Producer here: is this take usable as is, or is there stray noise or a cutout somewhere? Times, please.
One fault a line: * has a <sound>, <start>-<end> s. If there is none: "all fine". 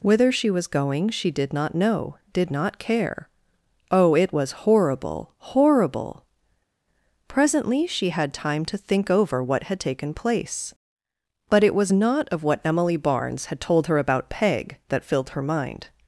all fine